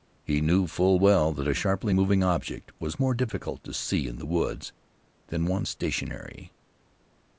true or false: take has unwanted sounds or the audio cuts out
false